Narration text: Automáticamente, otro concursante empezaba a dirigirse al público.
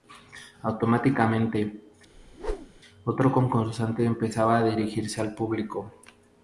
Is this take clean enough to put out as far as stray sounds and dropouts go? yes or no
no